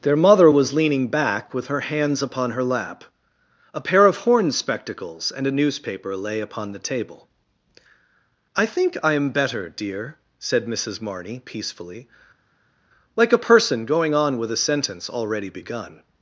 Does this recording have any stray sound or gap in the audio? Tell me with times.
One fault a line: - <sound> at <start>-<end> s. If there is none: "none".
none